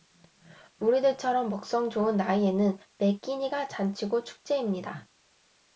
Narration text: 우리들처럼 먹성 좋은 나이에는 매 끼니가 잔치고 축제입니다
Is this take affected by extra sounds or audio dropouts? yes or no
no